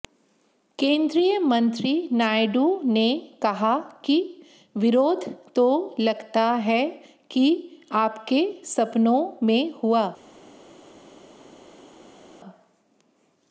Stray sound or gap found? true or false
false